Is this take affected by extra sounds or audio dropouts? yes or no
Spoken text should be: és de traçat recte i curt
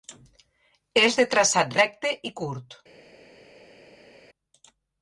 no